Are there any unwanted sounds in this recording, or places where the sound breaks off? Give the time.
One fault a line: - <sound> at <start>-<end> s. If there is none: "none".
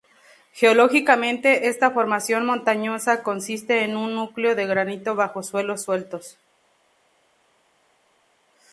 none